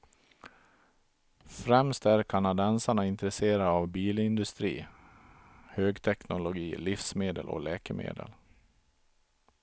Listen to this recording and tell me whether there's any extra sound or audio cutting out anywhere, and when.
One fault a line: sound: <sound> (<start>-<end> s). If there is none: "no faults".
no faults